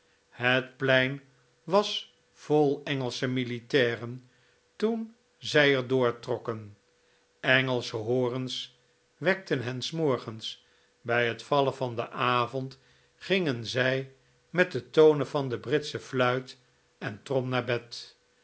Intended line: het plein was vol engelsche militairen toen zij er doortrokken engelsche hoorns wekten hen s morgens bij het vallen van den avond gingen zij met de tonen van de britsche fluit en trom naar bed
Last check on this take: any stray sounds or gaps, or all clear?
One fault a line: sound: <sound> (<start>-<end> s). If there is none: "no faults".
no faults